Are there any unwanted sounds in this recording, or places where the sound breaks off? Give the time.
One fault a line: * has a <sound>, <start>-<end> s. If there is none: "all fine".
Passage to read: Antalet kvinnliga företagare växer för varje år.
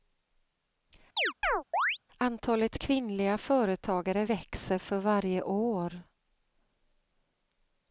* has a chirp, 1.2-2.0 s